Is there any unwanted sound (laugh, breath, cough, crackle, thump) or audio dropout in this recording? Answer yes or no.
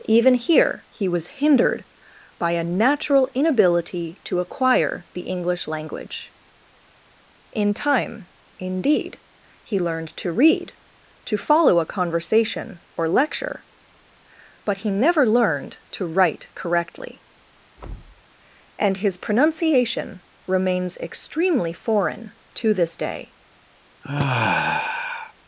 yes